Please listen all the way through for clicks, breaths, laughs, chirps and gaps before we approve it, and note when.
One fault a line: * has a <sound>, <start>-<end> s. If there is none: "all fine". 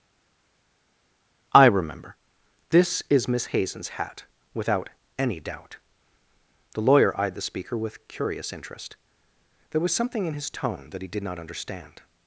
all fine